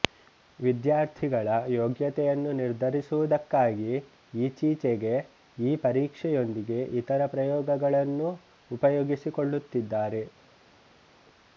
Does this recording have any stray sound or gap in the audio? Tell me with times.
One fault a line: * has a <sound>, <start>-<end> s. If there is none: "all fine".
all fine